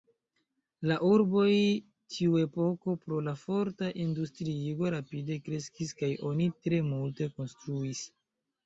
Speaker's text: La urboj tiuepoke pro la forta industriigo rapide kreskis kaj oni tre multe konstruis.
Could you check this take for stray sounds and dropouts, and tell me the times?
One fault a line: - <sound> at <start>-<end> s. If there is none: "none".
none